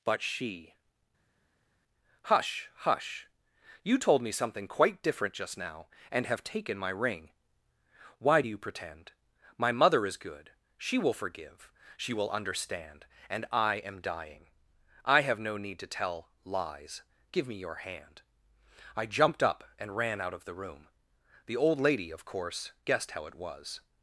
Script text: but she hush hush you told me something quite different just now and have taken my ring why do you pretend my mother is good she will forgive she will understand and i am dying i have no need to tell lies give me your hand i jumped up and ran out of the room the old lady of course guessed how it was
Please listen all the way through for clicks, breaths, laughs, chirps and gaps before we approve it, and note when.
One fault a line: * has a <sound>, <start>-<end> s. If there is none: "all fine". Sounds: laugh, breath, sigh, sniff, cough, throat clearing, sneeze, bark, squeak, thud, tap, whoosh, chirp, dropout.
all fine